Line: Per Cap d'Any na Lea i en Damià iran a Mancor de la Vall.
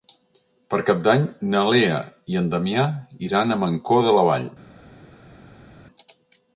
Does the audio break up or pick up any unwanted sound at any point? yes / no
no